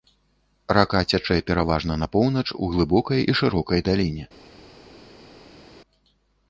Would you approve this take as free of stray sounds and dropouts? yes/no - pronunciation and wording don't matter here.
yes